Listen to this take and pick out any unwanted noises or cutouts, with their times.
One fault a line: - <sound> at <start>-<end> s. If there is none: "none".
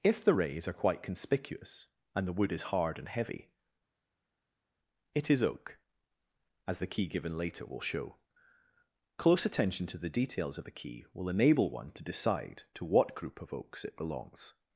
none